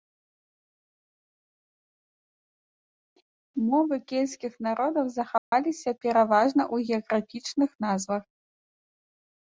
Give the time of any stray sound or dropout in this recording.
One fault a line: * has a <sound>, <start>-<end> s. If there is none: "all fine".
* has a dropout, 5.4-5.5 s